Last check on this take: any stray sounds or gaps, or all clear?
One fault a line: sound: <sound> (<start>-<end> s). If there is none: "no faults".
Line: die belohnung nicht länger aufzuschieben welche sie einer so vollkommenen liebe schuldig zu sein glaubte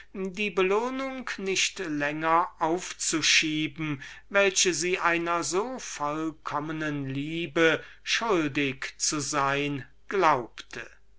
no faults